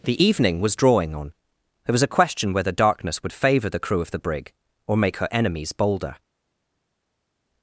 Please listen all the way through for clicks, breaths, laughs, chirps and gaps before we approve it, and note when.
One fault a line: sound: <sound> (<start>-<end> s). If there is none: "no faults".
no faults